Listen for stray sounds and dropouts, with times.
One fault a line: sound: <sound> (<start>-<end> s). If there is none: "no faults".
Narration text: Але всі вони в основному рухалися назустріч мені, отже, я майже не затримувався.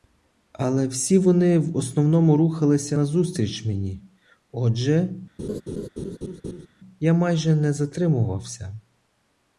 sound: laugh (5.4-6.7 s)